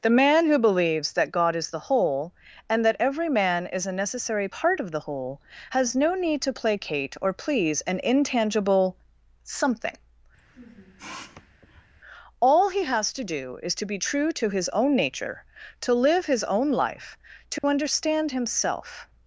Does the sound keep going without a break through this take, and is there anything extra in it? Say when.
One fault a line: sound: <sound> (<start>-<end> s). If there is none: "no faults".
sound: sniff (10.4-11.9 s)
sound: dropout (17.6-17.6 s)